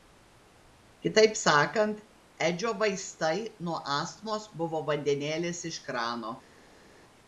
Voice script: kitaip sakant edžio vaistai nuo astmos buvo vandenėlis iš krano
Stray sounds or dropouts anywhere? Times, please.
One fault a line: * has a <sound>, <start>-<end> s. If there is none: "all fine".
all fine